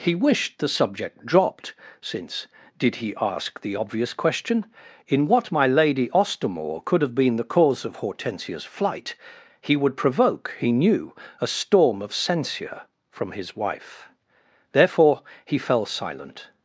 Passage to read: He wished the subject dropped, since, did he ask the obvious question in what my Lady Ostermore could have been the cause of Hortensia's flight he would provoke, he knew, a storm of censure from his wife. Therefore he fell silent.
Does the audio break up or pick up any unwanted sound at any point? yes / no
no